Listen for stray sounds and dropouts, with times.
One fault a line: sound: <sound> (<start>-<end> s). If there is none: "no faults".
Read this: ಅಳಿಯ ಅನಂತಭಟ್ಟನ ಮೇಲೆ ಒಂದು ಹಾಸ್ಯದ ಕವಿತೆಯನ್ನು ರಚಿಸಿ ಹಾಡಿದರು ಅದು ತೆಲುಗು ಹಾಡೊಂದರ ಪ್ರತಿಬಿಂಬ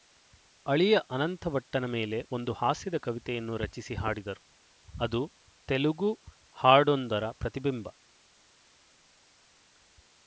no faults